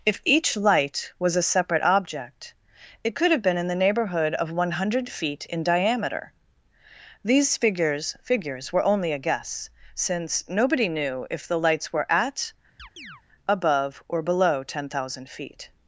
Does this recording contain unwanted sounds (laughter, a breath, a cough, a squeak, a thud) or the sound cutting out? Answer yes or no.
yes